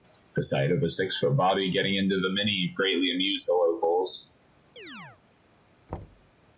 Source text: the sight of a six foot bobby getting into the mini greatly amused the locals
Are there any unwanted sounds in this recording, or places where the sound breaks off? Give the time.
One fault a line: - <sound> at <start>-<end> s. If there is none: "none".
- chirp at 4.8-5.2 s
- thud at 5.9-6.3 s